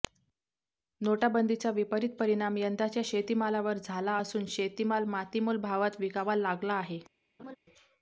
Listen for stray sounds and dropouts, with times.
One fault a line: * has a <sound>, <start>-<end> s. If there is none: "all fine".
* has a laugh, 7.4-7.6 s